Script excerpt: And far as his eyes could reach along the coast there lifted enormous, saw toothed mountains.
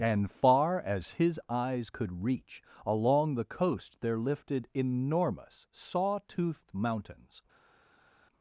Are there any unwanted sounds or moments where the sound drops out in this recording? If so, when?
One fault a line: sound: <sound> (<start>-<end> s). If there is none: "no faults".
no faults